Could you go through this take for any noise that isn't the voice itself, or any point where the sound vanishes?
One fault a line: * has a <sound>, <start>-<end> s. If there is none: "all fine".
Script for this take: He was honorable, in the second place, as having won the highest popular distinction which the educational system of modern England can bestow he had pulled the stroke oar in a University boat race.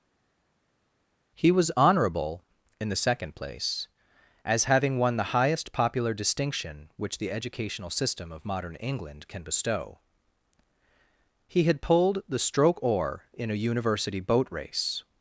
all fine